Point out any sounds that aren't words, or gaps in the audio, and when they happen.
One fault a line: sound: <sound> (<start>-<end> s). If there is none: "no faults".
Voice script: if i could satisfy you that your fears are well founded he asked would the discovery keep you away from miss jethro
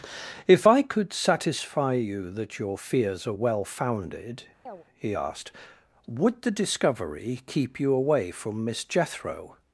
sound: chirp (4.7-4.8 s)